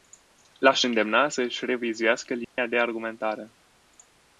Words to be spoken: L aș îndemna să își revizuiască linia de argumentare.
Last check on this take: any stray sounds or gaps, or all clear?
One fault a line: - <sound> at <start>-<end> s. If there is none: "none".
- dropout at 2.4-2.6 s